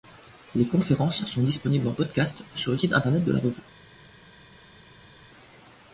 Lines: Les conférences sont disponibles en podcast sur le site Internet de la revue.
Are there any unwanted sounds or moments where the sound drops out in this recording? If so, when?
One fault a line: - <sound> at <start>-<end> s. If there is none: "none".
none